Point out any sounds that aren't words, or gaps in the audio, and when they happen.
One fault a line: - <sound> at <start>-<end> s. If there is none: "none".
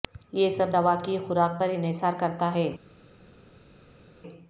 none